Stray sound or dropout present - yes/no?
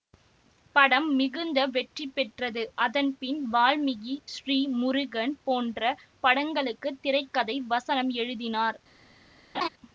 yes